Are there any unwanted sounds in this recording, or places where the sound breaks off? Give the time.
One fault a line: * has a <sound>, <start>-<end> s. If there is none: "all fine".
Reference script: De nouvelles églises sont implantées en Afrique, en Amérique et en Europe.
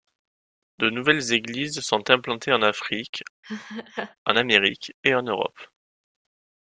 * has a laugh, 3.4-4.2 s